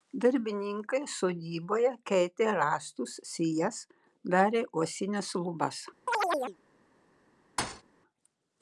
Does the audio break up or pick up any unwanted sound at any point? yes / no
yes